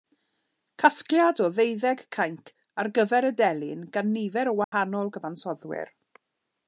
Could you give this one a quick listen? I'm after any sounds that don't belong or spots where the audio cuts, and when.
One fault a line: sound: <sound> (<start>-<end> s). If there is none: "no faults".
sound: dropout (4.6-4.7 s)